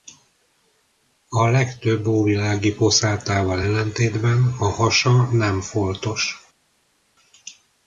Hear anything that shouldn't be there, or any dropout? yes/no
no